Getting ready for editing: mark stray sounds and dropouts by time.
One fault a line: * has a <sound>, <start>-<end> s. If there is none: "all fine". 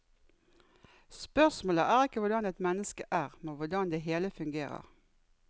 all fine